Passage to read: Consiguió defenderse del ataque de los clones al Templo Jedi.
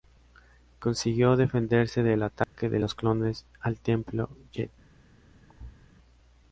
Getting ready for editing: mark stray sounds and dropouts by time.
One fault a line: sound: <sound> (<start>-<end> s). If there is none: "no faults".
sound: dropout (2.4-2.5 s)
sound: thud (5.5-5.8 s)